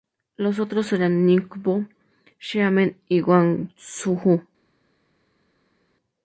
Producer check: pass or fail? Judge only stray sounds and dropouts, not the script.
pass